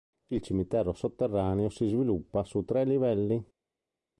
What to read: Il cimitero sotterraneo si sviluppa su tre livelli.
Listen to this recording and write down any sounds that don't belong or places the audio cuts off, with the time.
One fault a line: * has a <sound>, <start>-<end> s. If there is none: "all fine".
all fine